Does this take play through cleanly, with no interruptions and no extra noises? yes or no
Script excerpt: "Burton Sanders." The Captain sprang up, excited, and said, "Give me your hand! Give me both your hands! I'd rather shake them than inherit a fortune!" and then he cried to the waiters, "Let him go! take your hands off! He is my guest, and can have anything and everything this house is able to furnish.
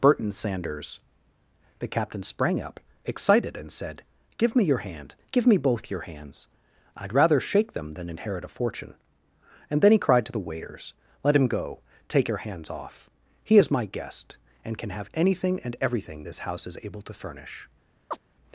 no